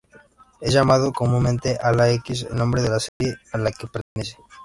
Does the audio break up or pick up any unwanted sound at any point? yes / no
yes